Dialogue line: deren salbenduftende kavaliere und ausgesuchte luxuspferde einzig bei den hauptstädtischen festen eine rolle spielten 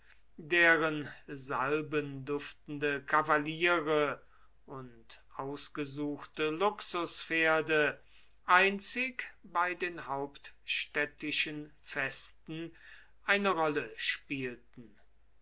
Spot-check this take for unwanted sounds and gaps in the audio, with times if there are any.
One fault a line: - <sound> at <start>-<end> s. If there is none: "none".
none